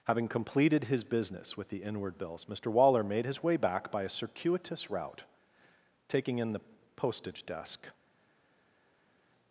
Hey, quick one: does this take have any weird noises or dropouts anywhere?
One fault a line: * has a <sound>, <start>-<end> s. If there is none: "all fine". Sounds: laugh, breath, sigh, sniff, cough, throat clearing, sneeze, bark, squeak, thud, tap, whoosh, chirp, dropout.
all fine